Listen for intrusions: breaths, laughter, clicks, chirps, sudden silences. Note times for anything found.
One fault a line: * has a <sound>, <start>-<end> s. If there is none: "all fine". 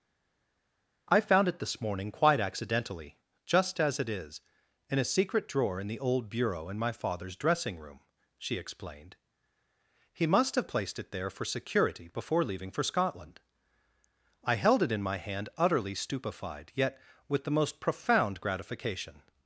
all fine